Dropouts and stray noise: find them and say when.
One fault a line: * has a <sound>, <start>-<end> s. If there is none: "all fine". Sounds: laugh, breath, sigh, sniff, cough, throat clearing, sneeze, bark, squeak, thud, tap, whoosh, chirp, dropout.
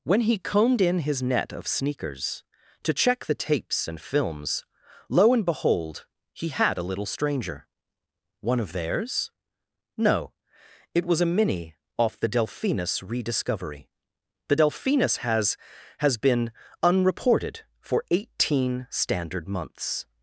all fine